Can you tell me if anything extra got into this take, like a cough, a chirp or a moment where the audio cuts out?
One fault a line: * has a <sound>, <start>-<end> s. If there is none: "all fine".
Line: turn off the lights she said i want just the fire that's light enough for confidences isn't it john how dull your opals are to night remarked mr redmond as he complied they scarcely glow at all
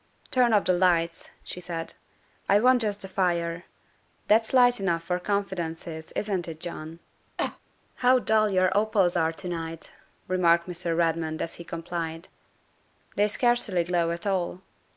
* has a cough, 7.4-7.6 s